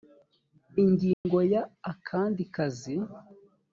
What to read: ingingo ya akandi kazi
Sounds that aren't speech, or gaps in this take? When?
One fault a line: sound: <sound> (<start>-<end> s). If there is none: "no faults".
sound: dropout (1.1-1.3 s)